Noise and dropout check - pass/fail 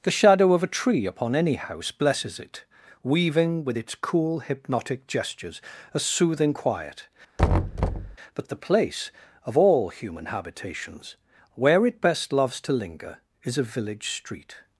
fail